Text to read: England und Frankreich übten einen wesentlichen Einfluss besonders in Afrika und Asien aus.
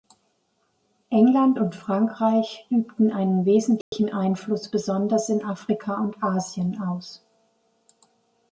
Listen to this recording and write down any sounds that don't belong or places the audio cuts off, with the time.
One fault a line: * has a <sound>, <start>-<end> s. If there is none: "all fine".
* has a dropout, 3.8-3.9 s